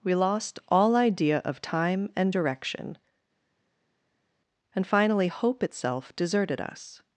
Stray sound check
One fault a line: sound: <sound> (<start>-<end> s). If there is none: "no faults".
no faults